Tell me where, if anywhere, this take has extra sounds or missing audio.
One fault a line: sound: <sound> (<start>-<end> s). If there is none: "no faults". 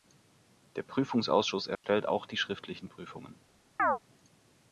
sound: dropout (1.7-1.8 s)
sound: chirp (3.8-4.0 s)